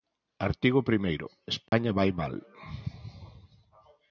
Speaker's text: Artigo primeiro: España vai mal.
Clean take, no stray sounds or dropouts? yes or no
no